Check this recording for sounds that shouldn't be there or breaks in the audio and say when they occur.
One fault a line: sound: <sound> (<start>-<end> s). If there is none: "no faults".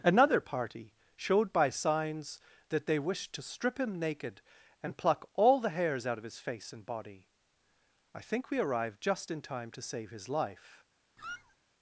sound: squeak (11.2-11.6 s)